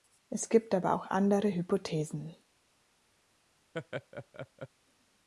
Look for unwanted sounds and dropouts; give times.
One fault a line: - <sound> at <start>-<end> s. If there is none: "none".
- laugh at 3.7-4.7 s